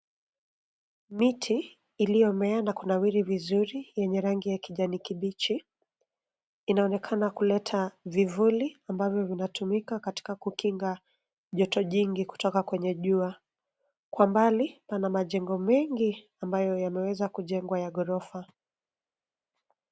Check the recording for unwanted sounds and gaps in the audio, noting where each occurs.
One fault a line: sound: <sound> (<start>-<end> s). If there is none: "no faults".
no faults